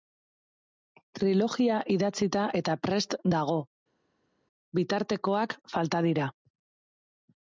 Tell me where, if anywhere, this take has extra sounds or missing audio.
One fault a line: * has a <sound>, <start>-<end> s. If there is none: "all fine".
all fine